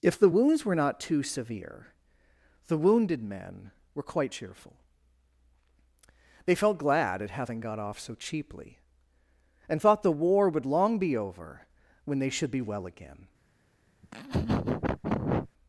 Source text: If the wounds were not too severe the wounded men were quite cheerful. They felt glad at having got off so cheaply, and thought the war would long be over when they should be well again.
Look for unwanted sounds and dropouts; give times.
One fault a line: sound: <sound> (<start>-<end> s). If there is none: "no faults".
sound: laugh (14.0-15.5 s)